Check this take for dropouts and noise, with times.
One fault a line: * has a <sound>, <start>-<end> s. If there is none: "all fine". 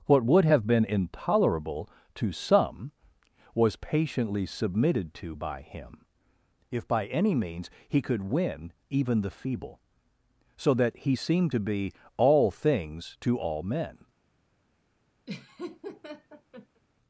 * has a laugh, 15.3-16.8 s